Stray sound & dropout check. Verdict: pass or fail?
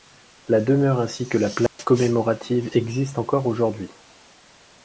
fail